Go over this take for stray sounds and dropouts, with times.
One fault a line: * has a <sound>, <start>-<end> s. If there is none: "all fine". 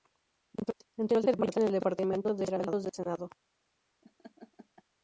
* has a laugh, 4.0-4.8 s